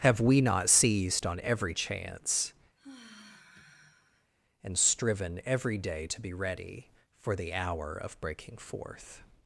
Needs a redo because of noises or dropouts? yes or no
yes